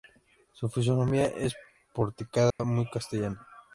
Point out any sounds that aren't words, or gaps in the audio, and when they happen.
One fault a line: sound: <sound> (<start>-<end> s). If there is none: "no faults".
sound: dropout (2.5-2.6 s)